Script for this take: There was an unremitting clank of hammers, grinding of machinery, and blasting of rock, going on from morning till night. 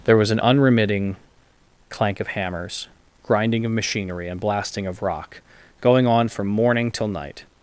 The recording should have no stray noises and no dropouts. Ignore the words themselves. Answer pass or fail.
pass